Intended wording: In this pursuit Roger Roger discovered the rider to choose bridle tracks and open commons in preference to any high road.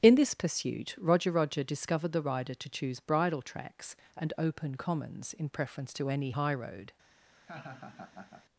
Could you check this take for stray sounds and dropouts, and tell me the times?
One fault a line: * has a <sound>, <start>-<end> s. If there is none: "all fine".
* has a laugh, 7.3-8.5 s